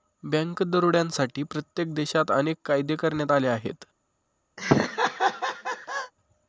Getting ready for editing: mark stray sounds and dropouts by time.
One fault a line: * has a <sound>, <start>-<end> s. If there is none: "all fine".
* has a laugh, 4.6-6.1 s